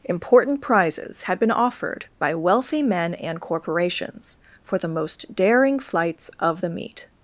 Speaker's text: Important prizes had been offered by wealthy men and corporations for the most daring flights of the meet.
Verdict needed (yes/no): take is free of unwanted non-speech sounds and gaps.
yes